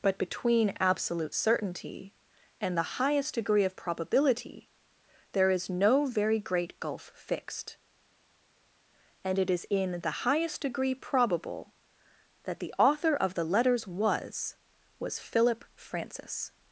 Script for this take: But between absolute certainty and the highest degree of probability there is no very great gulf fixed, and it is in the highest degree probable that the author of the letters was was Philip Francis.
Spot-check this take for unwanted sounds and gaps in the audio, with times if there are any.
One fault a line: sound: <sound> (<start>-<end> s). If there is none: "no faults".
no faults